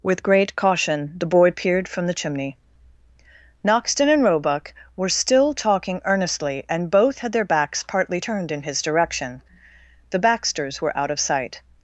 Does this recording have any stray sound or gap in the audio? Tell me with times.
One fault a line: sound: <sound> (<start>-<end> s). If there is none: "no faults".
no faults